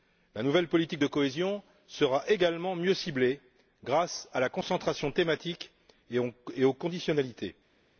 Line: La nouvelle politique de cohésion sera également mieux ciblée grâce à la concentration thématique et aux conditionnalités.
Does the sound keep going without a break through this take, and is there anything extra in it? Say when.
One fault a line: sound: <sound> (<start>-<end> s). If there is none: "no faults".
no faults